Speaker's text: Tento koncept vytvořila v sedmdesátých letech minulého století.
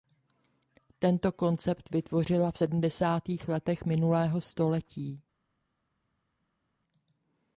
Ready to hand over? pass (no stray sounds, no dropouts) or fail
pass